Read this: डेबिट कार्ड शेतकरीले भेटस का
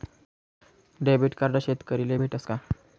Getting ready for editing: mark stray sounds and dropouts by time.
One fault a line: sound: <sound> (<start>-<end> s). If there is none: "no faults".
no faults